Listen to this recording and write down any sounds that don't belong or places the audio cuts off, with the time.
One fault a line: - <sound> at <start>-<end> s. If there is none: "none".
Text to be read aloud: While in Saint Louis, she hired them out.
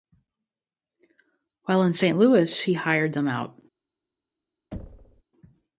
- thud at 4.7-5.2 s